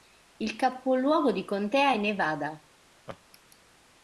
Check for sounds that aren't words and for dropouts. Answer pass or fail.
fail